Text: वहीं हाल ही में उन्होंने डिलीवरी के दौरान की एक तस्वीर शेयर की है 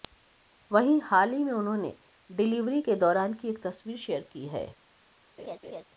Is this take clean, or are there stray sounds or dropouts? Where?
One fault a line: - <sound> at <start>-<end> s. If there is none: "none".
- laugh at 5.4-5.8 s